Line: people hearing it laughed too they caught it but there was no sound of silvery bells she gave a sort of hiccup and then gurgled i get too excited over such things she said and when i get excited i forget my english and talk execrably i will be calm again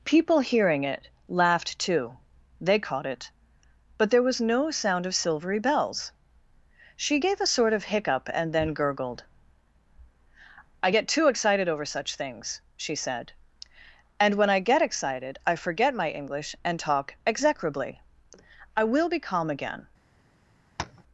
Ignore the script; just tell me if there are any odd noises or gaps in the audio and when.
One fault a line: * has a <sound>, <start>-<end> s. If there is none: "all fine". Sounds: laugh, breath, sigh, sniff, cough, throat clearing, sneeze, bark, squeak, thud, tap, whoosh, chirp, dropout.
* has a tap, 20.8-21.0 s